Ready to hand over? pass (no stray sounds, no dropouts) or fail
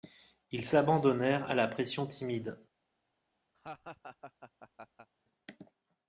fail